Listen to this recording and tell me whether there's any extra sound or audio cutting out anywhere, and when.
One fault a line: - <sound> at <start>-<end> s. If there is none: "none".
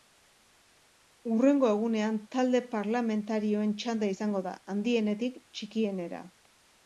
none